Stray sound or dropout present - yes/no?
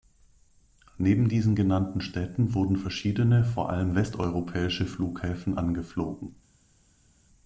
no